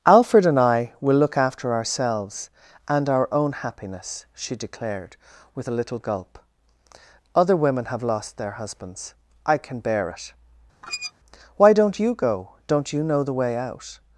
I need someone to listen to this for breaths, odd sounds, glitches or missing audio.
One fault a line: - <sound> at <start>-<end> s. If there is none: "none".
- squeak at 10.8-11.1 s